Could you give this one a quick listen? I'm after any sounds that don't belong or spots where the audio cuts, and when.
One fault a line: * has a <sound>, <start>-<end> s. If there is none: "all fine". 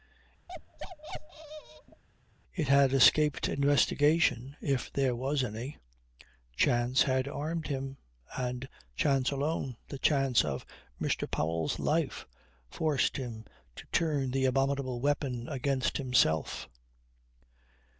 * has a bark, 0.5-2.0 s